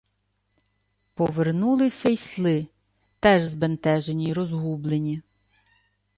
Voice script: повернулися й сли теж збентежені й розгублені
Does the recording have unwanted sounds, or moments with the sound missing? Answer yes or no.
no